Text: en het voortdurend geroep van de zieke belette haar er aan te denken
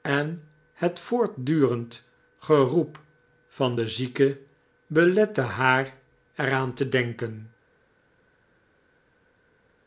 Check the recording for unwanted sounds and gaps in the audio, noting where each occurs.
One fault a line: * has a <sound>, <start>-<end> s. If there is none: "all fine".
all fine